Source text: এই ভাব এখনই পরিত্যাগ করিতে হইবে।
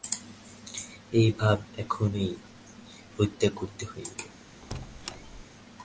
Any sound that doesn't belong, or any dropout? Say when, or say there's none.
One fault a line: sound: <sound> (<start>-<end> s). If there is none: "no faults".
sound: squeak (4.6-5.4 s)